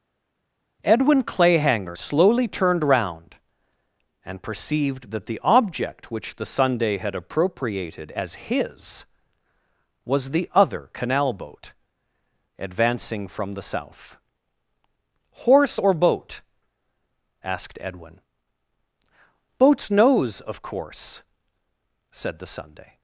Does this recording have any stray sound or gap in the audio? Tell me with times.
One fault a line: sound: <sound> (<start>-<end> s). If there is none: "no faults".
no faults